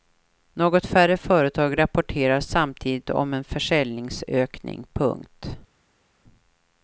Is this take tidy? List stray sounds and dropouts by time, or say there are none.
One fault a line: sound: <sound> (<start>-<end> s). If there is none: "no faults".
no faults